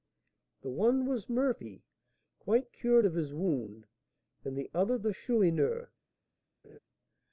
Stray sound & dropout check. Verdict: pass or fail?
fail